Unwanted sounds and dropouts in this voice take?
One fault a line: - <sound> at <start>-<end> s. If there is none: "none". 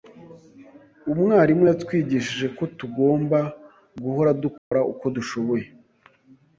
- dropout at 4.6-4.7 s